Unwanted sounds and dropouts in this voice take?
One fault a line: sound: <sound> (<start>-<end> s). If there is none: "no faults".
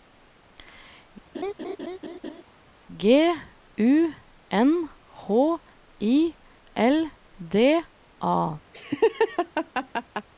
sound: laugh (1.3-2.4 s)
sound: laugh (8.7-10.3 s)